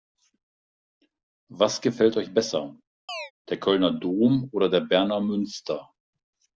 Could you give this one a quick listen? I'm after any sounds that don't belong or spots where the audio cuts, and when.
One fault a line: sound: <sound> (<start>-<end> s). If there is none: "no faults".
sound: chirp (3.1-3.3 s)